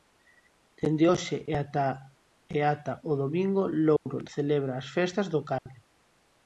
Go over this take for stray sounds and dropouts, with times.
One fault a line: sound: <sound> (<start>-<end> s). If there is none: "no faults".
sound: dropout (4.0-4.1 s)
sound: dropout (5.6-5.7 s)